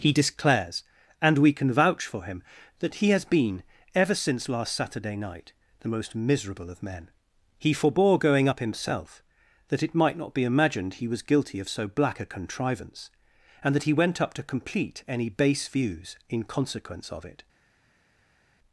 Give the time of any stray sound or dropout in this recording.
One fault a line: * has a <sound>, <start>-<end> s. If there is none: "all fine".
all fine